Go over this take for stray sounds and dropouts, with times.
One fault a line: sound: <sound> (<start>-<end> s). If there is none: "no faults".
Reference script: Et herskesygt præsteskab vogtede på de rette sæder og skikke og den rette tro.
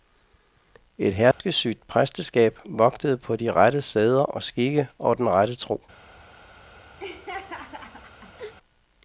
sound: dropout (1.3-1.4 s)
sound: laugh (7.0-8.5 s)